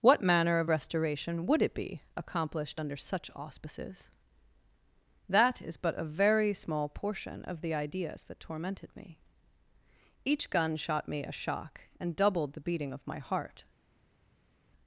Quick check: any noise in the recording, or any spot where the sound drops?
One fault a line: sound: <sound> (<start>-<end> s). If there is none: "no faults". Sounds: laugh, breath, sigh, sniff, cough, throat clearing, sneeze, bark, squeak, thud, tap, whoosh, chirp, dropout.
no faults